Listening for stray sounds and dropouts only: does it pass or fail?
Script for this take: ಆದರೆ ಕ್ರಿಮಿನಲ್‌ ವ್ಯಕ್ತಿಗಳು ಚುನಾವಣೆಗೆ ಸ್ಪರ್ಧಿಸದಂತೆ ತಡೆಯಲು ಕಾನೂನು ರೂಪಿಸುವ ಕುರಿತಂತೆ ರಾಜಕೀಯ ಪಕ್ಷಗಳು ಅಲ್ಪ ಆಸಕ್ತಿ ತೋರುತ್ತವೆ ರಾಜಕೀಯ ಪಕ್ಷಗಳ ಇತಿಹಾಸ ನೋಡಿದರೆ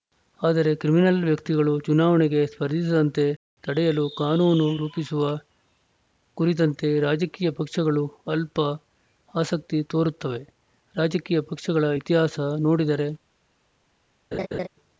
fail